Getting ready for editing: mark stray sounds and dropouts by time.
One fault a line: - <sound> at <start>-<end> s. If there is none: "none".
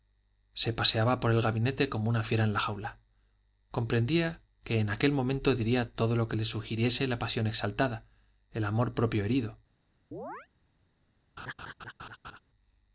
- chirp at 10.1-10.5 s
- laugh at 11.4-12.4 s